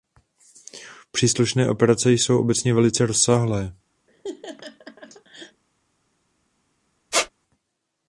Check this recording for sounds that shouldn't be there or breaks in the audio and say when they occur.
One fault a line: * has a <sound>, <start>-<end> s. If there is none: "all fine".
* has a laugh, 4.1-5.6 s
* has a squeak, 7.1-7.3 s